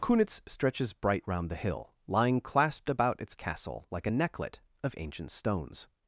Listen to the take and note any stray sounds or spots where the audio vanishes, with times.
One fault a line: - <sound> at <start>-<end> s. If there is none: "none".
none